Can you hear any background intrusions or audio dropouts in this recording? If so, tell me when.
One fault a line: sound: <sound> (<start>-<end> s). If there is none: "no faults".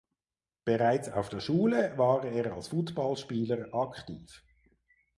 no faults